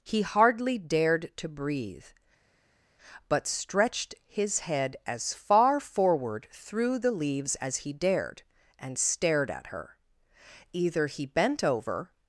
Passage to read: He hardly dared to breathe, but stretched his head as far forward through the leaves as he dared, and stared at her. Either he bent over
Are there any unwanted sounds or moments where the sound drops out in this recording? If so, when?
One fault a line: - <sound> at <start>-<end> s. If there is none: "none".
none